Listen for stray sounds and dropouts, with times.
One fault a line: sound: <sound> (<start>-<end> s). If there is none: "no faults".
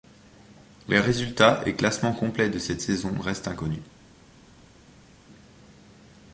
no faults